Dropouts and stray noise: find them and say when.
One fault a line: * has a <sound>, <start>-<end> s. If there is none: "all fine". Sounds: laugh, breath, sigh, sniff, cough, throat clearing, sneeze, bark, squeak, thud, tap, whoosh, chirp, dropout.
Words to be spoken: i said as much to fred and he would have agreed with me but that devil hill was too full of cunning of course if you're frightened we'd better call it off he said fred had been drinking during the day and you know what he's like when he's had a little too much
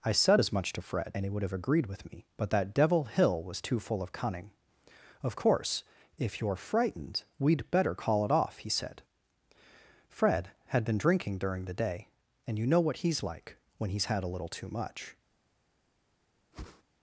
* has a whoosh, 16.5-16.8 s